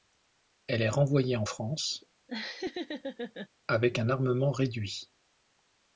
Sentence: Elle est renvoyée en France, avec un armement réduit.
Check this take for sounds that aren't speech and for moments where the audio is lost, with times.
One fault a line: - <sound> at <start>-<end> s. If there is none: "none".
- laugh at 2.3-3.5 s